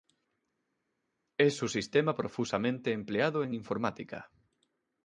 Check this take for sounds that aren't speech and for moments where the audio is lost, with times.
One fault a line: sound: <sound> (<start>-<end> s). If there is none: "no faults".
no faults